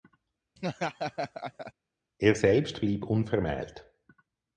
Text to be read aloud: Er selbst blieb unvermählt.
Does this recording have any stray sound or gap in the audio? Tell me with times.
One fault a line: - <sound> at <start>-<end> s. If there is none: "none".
- laugh at 0.6-1.7 s